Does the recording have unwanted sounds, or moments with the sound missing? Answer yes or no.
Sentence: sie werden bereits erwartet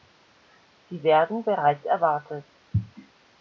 no